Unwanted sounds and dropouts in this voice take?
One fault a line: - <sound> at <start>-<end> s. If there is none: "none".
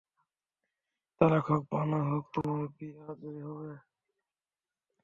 - dropout at 2.4-2.4 s